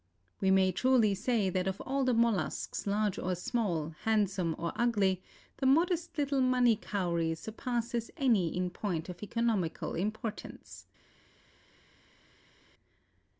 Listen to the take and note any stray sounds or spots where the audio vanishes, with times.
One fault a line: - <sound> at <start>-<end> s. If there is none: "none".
none